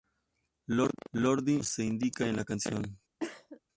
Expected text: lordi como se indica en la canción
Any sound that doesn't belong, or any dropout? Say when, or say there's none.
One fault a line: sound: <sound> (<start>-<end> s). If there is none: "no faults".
sound: cough (3.2-3.6 s)